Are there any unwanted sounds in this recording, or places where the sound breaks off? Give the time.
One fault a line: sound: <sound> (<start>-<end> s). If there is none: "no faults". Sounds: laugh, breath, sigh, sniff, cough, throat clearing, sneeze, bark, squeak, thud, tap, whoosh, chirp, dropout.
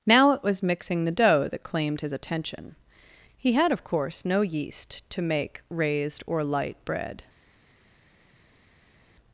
no faults